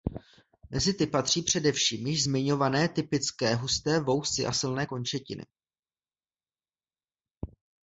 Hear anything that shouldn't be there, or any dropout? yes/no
no